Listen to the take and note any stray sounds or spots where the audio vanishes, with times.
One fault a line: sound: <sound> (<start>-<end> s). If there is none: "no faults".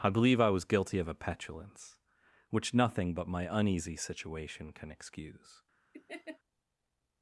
sound: laugh (5.9-6.4 s)